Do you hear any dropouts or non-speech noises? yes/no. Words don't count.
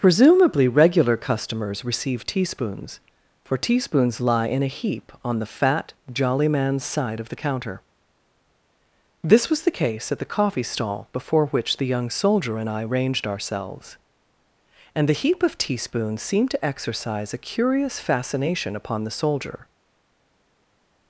no